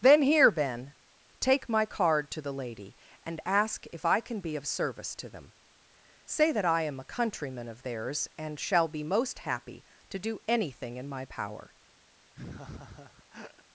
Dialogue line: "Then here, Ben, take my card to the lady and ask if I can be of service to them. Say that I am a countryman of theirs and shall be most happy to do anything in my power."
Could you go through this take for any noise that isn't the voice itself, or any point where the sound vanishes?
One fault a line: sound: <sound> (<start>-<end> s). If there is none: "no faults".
sound: laugh (12.3-13.6 s)